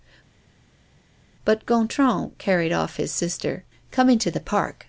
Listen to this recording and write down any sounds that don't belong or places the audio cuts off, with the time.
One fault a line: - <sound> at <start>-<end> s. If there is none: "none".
none